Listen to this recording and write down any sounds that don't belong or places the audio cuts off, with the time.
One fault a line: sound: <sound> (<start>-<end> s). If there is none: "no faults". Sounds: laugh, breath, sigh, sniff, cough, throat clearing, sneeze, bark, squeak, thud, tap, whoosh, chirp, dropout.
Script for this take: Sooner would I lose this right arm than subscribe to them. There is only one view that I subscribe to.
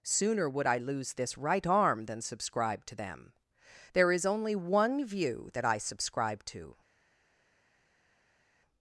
no faults